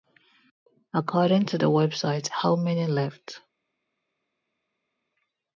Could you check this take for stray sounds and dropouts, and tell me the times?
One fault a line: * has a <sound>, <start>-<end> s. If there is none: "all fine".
all fine